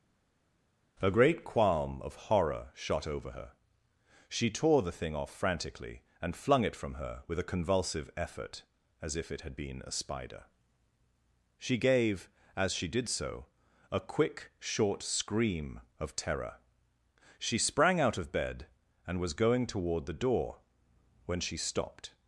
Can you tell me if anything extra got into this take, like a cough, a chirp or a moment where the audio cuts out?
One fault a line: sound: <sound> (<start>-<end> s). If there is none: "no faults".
no faults